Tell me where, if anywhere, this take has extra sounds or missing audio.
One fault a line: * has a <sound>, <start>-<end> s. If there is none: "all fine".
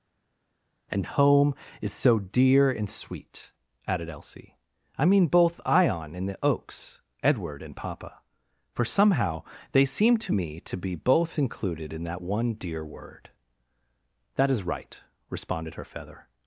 all fine